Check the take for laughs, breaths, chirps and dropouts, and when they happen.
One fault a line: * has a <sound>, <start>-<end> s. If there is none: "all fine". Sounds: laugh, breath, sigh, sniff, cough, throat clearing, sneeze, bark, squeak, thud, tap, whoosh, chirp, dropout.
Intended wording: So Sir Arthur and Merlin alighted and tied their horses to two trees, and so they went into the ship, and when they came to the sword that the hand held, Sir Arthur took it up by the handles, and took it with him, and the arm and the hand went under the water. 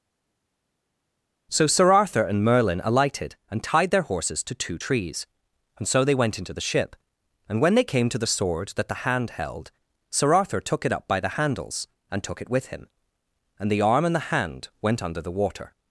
all fine